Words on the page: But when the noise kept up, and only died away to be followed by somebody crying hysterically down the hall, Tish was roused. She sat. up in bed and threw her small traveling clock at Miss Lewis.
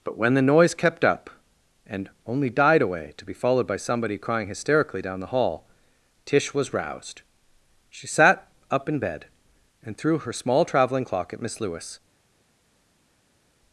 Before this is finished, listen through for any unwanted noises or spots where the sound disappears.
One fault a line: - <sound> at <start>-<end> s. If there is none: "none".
none